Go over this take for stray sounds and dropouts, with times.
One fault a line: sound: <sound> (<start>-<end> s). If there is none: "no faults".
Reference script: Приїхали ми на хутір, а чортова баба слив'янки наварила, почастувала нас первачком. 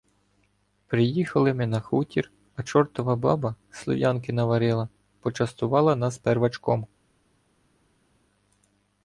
no faults